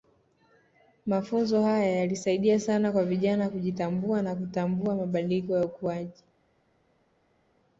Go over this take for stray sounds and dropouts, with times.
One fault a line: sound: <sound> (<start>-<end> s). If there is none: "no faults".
no faults